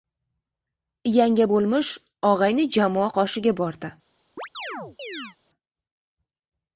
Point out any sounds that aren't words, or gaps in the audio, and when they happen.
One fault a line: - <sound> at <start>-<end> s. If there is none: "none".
- chirp at 4.4-5.4 s